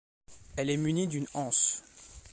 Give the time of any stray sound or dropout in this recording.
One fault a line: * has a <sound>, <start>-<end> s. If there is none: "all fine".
all fine